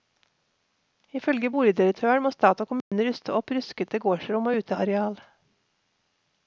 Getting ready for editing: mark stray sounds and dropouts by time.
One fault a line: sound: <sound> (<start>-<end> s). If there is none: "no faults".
sound: dropout (2.8-2.9 s)